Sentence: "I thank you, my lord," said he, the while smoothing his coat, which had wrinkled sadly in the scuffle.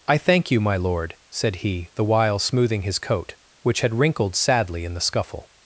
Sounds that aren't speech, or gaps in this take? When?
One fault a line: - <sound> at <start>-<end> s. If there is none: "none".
none